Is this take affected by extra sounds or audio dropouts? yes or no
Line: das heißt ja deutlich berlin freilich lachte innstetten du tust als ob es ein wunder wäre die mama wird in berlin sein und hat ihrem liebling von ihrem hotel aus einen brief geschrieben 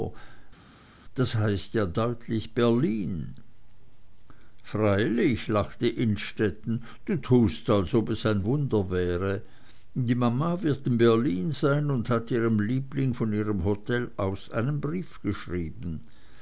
no